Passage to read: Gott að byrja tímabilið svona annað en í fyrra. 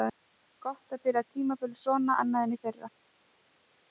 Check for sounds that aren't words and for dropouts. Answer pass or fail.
pass